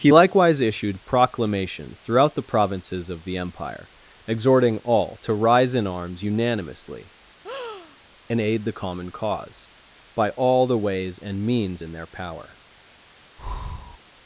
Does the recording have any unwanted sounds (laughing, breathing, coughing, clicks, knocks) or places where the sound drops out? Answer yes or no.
yes